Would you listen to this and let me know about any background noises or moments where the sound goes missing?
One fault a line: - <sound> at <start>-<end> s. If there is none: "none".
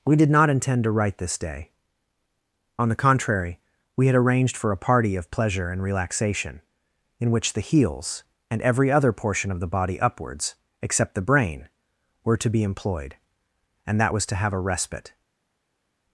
none